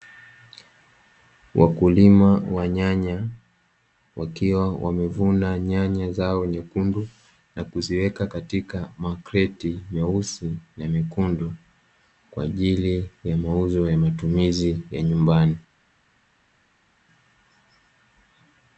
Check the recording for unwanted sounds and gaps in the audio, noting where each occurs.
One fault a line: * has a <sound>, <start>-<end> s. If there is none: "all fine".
all fine